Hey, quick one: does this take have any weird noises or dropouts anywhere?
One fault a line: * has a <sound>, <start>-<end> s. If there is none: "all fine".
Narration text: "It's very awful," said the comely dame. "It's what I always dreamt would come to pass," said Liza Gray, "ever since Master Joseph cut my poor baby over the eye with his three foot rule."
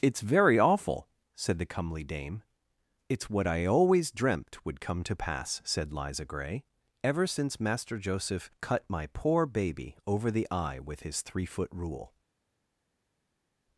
all fine